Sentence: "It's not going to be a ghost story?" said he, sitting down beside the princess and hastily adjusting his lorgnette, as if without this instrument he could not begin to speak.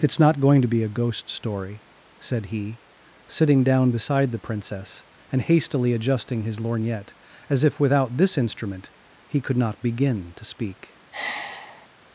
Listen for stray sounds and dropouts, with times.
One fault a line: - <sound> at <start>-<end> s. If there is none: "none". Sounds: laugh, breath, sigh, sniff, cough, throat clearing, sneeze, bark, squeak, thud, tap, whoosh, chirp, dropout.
- sigh at 11.1-11.9 s